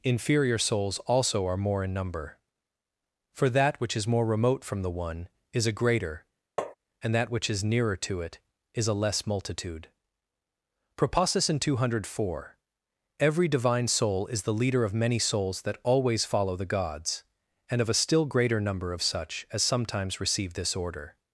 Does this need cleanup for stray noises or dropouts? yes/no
yes